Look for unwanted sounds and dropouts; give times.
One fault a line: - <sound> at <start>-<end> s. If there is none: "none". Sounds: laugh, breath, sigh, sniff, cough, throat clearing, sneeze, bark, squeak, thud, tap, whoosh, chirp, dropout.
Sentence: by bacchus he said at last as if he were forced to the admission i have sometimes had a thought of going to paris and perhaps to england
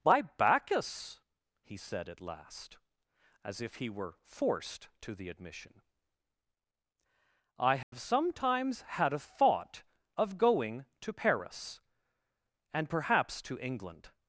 - dropout at 7.8-7.9 s